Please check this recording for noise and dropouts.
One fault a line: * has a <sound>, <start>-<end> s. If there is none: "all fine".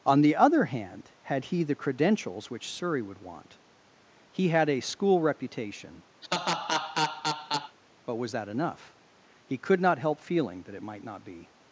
* has a laugh, 6.2-7.8 s